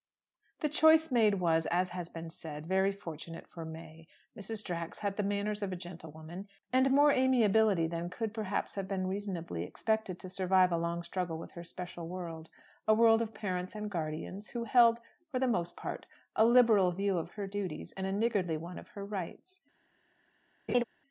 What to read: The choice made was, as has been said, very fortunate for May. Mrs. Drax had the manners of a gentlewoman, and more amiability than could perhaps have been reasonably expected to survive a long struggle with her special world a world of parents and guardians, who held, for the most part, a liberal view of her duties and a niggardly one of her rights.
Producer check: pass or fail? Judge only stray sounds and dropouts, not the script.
fail